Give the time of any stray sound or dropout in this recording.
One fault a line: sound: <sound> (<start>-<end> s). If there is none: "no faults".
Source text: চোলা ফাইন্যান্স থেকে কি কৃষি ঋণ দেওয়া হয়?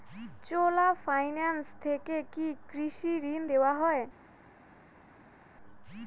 no faults